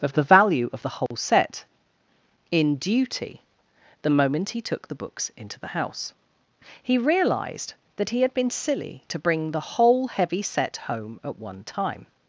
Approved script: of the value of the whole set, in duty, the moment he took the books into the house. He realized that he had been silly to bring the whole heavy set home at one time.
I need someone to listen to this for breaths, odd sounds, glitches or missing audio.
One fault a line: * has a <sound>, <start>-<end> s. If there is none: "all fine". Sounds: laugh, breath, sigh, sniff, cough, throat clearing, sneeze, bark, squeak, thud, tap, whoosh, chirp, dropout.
* has a dropout, 1.1-1.1 s